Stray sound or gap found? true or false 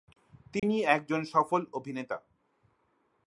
true